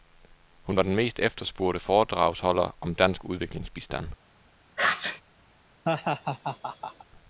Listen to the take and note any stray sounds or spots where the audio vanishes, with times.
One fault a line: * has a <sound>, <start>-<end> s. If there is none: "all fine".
* has a sneeze, 4.8-5.2 s
* has a laugh, 5.8-7.0 s